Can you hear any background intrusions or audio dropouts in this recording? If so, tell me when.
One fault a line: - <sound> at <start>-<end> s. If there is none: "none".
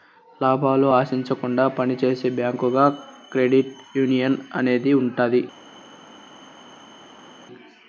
none